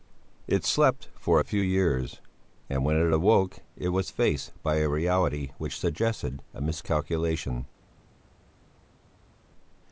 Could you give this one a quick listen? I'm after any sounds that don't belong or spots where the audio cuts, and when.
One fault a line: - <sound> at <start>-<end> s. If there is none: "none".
none